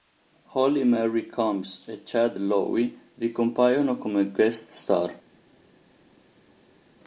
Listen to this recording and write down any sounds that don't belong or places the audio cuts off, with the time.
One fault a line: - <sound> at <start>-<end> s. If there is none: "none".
none